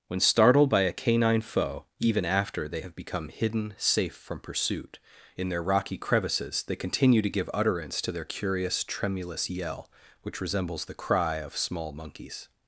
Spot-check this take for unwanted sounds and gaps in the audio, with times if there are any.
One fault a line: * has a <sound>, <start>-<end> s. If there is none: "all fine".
all fine